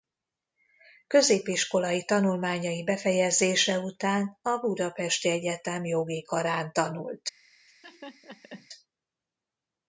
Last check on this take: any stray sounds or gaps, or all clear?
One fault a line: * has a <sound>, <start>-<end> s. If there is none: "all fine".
* has a laugh, 7.7-8.7 s